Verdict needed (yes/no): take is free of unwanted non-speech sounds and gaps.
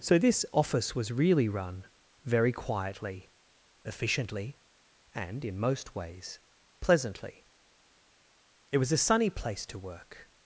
yes